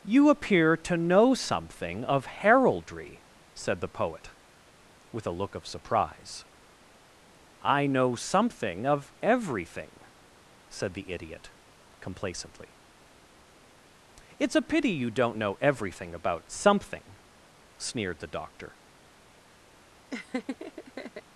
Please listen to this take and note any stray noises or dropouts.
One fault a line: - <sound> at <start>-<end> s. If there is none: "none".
- laugh at 20.1-21.2 s